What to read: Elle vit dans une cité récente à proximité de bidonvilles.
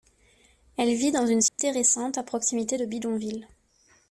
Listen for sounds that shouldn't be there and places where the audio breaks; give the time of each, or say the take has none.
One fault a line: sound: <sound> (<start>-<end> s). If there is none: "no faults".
sound: dropout (1.5-1.6 s)